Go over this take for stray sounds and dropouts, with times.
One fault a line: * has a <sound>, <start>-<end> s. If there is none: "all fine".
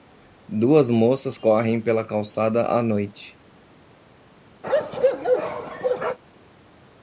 * has a bark, 4.6-6.2 s